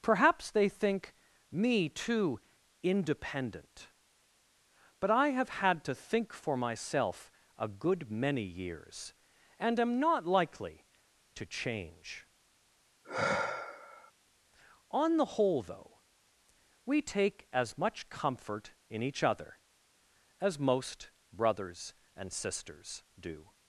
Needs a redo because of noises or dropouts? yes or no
yes